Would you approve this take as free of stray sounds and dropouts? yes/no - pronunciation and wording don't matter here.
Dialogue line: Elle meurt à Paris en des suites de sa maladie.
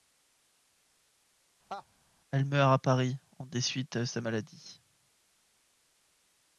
no